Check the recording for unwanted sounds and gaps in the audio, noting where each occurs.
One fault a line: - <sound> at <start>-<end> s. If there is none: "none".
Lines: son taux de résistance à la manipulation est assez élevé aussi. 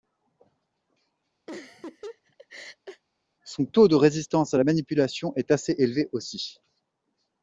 - laugh at 1.5-3.0 s